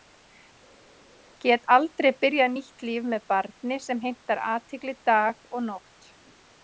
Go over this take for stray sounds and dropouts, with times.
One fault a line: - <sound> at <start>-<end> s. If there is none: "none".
none